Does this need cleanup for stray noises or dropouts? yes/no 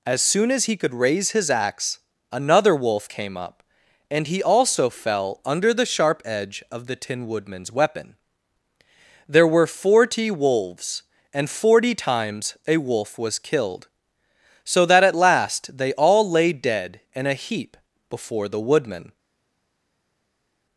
no